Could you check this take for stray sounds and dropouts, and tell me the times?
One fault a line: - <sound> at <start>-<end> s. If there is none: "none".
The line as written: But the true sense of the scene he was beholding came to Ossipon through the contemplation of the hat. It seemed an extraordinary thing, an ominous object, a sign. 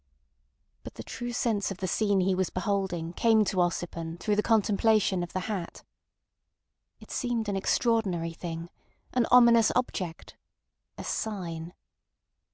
none